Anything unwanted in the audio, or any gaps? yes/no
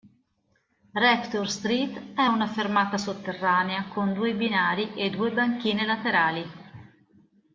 no